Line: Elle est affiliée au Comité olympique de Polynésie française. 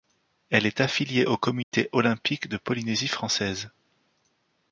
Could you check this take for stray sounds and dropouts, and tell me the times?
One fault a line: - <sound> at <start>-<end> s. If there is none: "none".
- dropout at 1.6-1.7 s